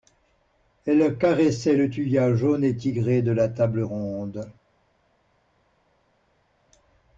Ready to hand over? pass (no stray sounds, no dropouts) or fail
pass